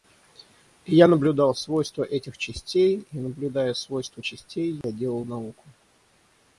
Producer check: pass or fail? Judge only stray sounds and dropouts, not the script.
fail